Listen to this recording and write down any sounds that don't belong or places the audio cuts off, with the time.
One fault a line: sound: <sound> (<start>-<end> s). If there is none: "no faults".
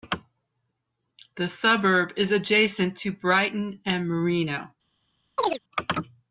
sound: chirp (5.4-5.6 s)